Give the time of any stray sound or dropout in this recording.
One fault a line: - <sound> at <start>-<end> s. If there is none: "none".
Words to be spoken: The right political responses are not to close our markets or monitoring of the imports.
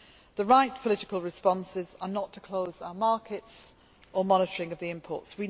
none